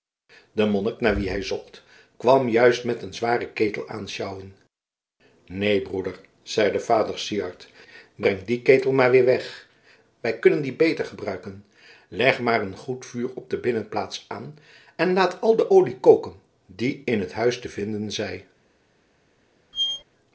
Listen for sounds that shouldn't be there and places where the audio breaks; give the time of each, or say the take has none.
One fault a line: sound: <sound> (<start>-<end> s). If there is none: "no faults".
sound: squeak (19.7-20.0 s)